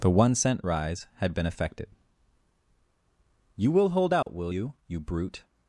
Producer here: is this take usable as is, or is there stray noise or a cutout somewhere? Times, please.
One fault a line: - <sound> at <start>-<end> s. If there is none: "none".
- dropout at 4.2-4.3 s